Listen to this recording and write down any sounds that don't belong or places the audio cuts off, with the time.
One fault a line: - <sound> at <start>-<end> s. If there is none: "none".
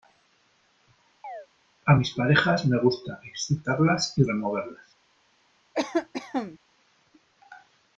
- chirp at 1.2-1.5 s
- cough at 5.7-6.6 s